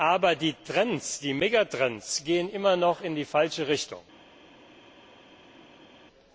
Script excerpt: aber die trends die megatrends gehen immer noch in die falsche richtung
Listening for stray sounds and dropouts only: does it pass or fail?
pass